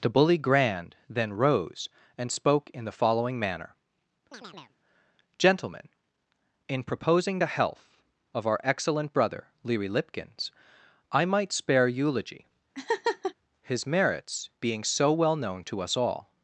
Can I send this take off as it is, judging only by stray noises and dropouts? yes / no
no